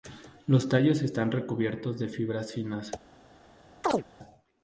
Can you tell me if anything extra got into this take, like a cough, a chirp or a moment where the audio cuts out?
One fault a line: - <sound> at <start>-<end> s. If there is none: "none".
- chirp at 3.8-4.0 s